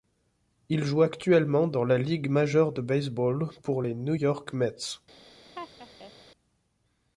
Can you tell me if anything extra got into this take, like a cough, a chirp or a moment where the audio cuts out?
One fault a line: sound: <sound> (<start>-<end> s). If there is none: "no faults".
sound: laugh (5.5-6.1 s)